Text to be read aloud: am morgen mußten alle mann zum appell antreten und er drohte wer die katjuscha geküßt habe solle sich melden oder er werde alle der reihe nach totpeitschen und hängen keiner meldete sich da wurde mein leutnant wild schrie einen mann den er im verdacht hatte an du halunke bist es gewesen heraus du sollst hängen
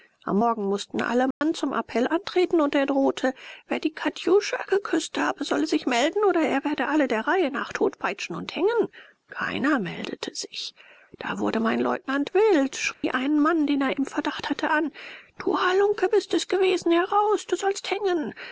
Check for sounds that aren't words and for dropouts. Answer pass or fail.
fail